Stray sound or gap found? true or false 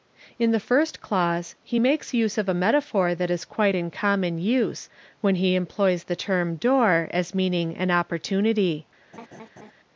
true